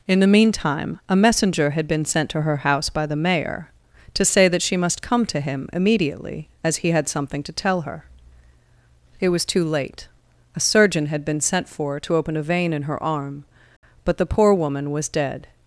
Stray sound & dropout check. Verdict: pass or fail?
pass